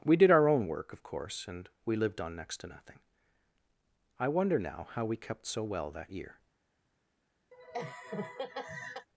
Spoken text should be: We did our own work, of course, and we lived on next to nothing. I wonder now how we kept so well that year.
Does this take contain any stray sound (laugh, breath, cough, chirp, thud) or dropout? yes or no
yes